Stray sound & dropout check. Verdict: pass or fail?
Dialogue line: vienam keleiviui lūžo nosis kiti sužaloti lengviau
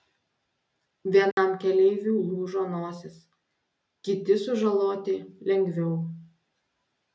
fail